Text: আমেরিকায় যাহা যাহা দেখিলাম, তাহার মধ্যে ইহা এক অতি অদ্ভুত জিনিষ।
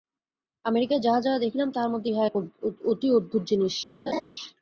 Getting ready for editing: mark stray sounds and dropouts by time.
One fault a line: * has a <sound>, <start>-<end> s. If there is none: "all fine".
* has a laugh, 4.1-4.2 s